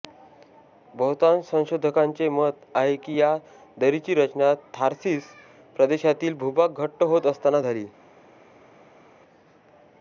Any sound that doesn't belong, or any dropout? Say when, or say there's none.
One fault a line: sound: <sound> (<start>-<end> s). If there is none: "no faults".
no faults